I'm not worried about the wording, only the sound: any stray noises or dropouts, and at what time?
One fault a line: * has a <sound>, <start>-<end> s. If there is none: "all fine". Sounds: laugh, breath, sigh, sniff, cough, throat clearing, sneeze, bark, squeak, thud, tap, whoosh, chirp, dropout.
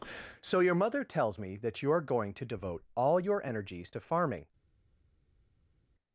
all fine